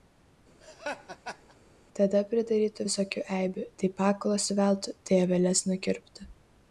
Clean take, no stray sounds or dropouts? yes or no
no